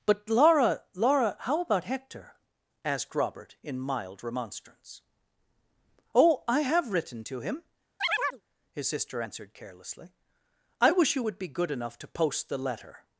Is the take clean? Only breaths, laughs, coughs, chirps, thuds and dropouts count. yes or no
no